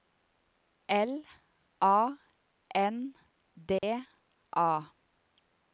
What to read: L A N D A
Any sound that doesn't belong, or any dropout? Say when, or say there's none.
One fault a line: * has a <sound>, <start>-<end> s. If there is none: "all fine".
* has a dropout, 3.8-3.8 s